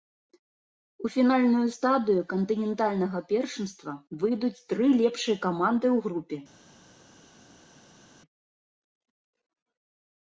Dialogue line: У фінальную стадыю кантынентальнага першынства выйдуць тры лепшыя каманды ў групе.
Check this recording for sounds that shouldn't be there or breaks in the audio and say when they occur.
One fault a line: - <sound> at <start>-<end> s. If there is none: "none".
none